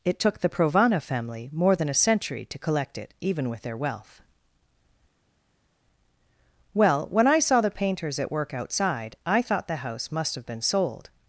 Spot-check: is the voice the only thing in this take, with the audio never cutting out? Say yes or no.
yes